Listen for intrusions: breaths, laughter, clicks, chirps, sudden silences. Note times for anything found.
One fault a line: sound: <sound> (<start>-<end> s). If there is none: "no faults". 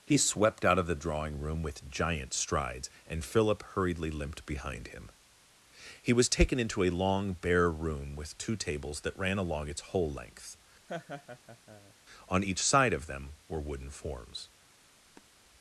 sound: laugh (10.9-11.9 s)
sound: sniff (15.1-15.3 s)